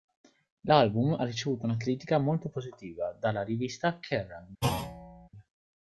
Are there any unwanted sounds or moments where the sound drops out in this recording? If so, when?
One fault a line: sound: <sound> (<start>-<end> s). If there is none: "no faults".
sound: thud (4.6-5.3 s)